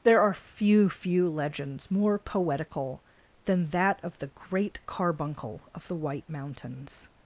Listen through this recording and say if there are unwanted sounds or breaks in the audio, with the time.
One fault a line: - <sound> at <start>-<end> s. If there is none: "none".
none